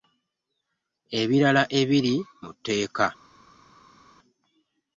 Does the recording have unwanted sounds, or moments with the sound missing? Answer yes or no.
no